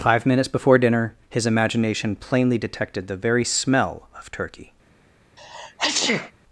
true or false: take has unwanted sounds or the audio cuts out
true